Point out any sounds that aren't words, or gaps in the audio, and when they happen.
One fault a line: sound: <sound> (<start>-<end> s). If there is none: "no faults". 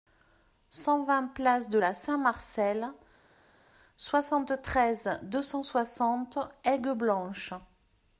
no faults